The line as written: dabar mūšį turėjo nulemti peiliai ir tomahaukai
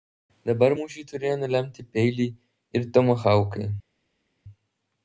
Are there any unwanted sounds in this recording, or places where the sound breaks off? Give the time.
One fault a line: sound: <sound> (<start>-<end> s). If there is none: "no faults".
no faults